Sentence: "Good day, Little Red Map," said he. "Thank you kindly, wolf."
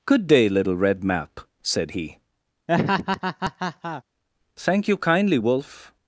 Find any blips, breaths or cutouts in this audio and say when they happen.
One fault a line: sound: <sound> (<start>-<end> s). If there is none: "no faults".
sound: laugh (2.7-4.0 s)